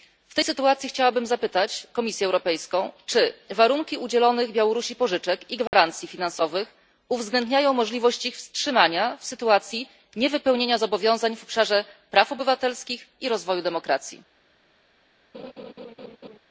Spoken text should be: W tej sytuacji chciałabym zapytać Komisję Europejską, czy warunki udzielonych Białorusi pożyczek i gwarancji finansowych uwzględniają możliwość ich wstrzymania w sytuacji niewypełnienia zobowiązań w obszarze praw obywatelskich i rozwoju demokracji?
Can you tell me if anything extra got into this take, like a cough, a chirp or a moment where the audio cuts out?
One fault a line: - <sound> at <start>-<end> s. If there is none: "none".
- dropout at 5.7-5.7 s
- laugh at 15.3-16.4 s